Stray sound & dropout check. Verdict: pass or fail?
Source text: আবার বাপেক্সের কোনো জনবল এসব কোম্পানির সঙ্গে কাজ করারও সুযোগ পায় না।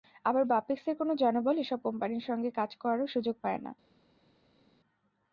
pass